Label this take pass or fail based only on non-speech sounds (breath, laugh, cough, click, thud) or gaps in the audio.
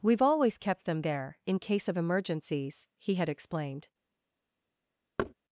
fail